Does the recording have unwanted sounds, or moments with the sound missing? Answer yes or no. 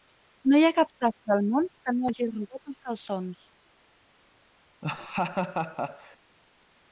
yes